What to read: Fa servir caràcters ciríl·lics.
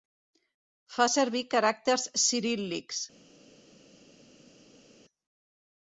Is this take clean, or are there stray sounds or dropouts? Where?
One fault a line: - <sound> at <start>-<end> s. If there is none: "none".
none